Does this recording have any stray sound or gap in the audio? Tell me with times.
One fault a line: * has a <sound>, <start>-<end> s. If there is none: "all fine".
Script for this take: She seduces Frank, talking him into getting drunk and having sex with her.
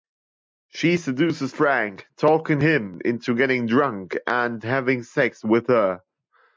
all fine